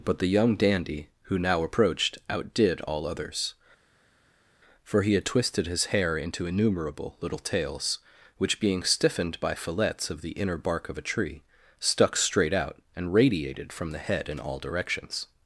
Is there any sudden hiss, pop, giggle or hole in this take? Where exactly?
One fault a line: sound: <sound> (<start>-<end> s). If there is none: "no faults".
no faults